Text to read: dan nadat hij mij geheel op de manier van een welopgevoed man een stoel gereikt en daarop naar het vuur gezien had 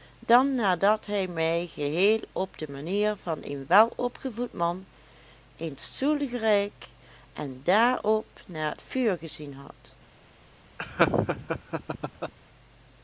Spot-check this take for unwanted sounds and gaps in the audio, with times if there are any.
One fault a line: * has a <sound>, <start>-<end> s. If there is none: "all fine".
* has a laugh, 10.8-12.3 s